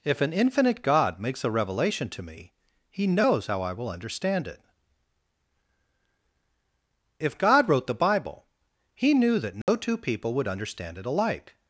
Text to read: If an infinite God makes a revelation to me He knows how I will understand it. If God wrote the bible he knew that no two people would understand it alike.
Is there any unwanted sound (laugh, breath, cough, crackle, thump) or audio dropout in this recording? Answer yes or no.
yes